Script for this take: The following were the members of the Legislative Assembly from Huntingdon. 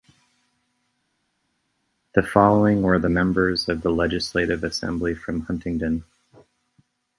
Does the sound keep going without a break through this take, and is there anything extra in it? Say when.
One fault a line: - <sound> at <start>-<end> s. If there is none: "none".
none